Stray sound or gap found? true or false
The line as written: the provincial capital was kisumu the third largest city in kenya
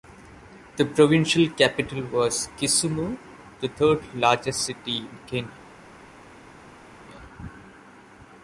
false